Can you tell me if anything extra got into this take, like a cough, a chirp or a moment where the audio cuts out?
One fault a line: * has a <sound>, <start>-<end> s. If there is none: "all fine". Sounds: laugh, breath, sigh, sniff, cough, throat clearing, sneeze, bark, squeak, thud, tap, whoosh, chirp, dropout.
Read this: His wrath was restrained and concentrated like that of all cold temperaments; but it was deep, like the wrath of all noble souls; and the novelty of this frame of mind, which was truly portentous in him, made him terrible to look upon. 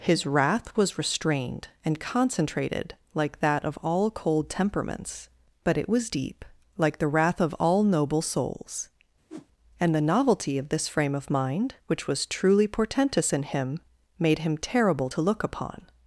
* has a whoosh, 9.3-9.5 s